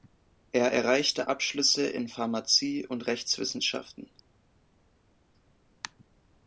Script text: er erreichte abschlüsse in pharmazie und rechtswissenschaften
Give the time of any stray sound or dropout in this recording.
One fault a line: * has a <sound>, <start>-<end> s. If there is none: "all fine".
all fine